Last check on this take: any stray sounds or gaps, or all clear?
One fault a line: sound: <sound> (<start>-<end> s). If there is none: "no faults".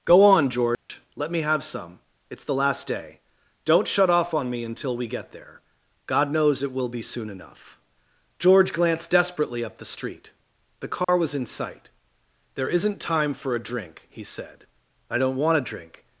sound: dropout (0.7-0.9 s)
sound: dropout (11.0-11.1 s)